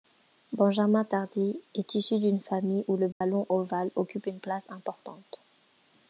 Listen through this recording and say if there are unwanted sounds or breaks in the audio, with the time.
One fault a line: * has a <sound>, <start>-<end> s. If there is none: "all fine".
* has a dropout, 3.1-3.2 s